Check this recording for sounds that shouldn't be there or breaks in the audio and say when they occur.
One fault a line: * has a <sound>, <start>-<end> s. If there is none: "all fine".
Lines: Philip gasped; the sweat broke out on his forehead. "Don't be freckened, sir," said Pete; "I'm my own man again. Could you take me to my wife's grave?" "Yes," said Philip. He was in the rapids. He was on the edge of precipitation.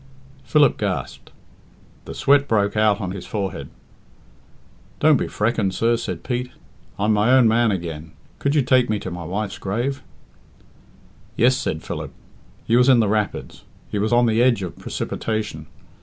all fine